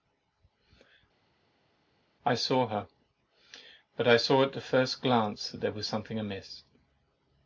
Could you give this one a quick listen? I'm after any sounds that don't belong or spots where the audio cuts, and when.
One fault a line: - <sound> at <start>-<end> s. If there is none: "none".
none